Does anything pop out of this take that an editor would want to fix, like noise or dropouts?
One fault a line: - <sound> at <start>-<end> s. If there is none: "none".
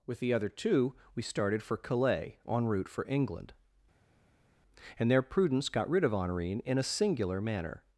none